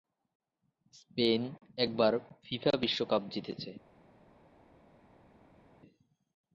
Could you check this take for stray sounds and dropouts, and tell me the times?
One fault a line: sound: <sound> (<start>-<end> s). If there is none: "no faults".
no faults